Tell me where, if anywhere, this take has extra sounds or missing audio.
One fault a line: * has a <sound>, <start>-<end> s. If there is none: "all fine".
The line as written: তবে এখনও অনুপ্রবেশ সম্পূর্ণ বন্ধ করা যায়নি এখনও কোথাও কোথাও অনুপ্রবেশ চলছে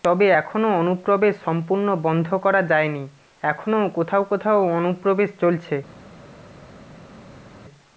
all fine